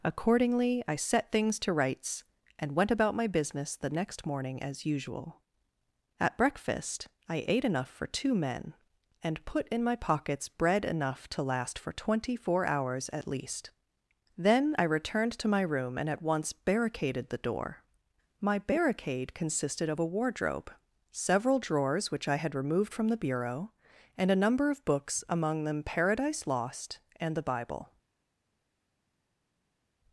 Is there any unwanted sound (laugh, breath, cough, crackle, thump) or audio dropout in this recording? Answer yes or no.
no